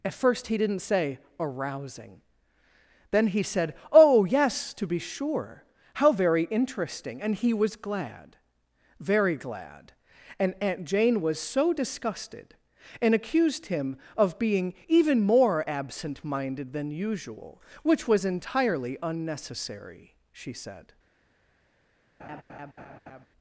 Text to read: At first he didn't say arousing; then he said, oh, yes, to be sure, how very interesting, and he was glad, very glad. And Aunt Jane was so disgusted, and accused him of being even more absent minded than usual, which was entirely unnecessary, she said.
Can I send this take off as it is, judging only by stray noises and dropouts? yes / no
no